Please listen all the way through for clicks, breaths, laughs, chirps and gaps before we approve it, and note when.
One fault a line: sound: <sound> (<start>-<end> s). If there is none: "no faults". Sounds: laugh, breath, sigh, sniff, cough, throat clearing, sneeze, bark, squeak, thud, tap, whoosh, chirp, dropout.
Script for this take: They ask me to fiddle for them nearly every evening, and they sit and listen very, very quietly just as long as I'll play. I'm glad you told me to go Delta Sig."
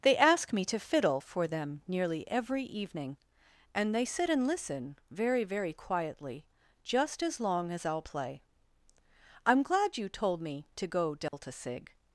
sound: dropout (11.3-11.3 s)